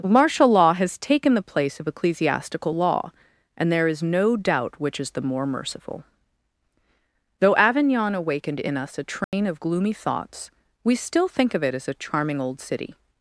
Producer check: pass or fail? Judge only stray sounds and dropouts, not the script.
fail